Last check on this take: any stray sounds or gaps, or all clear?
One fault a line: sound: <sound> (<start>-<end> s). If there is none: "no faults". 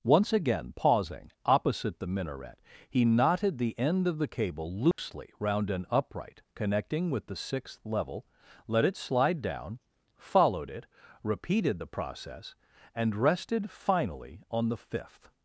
sound: dropout (4.9-5.0 s)